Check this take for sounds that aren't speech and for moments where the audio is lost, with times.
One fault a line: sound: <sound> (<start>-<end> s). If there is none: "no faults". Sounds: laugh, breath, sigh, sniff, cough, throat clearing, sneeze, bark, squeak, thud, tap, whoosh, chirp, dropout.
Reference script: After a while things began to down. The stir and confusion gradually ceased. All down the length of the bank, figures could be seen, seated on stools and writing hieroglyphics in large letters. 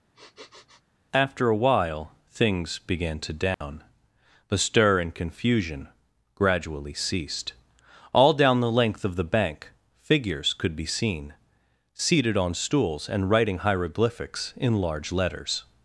sound: sniff (0.1-0.8 s)
sound: dropout (3.5-3.6 s)